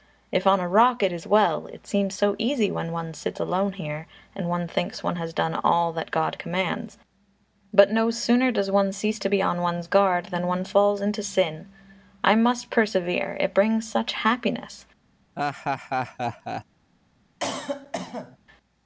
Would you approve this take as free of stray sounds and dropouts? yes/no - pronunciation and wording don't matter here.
no